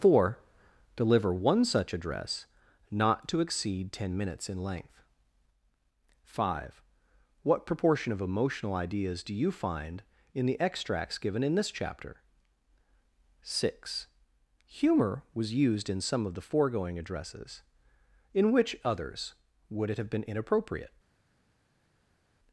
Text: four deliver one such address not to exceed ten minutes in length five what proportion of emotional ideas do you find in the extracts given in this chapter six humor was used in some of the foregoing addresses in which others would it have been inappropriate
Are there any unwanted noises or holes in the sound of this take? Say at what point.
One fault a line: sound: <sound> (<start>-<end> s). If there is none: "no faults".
no faults